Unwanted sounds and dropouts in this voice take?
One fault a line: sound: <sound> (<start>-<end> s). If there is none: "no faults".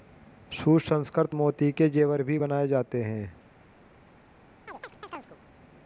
sound: chirp (4.7-5.4 s)